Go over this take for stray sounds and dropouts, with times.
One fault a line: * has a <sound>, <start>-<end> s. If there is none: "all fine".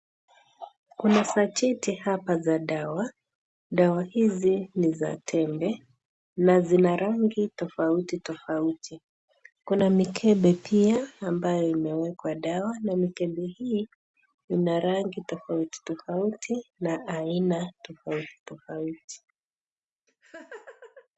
* has a laugh, 20.1-21.1 s